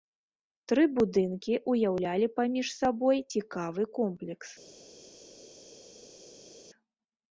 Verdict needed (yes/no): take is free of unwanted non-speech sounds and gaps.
yes